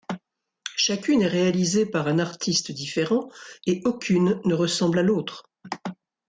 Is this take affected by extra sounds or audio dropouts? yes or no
no